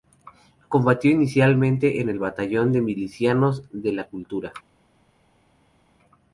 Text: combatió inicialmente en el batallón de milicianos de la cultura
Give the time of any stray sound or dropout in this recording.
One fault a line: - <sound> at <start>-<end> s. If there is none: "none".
none